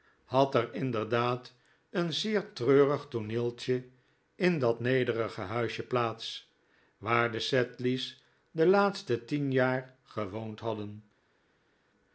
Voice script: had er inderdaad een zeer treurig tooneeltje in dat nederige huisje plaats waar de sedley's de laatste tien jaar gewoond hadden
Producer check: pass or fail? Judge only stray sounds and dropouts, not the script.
pass